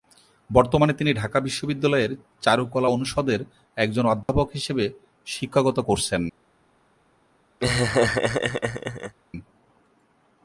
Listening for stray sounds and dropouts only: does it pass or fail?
fail